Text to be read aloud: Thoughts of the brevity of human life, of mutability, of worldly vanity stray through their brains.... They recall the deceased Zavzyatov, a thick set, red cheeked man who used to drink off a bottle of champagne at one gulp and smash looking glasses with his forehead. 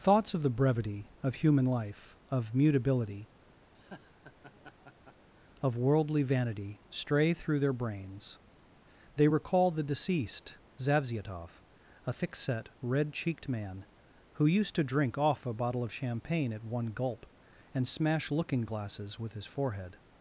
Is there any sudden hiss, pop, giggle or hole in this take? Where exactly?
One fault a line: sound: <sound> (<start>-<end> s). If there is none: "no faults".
sound: laugh (3.7-5.3 s)